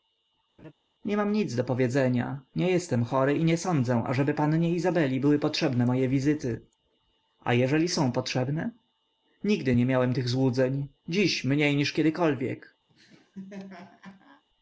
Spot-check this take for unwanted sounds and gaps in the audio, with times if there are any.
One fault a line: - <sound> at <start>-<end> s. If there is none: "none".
- laugh at 0.6-0.7 s
- laugh at 12.9-14.4 s